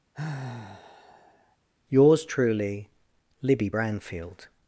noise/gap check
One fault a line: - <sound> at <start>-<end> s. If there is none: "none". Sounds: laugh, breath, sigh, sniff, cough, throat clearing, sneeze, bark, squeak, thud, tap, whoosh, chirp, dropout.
- sigh at 0.1-1.6 s